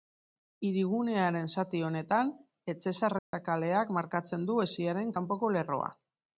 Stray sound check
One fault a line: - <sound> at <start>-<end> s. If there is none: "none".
- dropout at 3.2-3.3 s